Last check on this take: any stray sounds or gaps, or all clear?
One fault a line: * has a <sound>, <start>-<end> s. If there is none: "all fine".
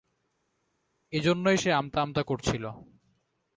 all fine